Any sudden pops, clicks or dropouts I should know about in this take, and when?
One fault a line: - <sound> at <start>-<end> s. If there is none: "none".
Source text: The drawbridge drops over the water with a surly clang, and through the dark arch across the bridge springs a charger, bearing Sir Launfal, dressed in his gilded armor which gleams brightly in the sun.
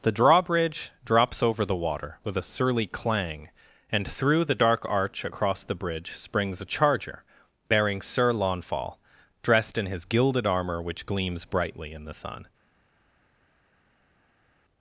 none